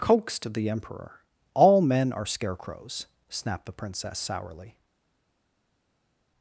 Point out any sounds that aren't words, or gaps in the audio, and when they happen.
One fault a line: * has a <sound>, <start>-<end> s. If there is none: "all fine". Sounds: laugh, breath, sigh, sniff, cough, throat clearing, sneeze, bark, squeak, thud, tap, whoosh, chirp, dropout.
all fine